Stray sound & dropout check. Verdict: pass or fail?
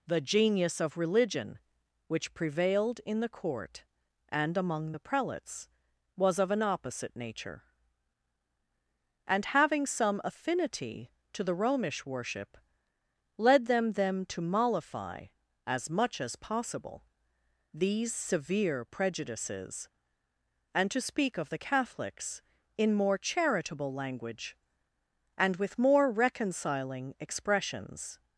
pass